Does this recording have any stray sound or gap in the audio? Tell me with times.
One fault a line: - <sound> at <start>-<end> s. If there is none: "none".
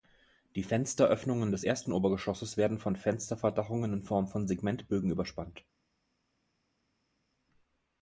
none